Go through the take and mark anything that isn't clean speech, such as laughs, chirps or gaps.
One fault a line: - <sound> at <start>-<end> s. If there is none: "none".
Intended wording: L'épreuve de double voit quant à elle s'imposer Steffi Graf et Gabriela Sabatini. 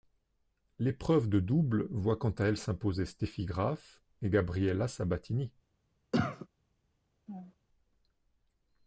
- cough at 6.1-6.5 s
- laugh at 7.3-7.6 s